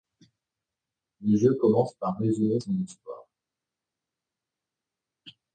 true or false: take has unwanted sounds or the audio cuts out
false